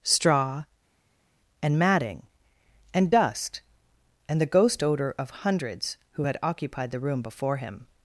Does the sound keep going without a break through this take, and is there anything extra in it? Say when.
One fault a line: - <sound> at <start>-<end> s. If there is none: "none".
none